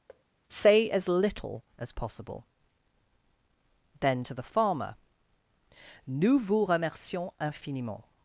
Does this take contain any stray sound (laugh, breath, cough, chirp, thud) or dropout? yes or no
yes